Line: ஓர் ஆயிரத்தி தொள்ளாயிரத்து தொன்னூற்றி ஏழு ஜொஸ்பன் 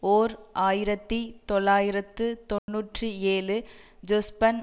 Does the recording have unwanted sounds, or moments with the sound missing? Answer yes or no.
yes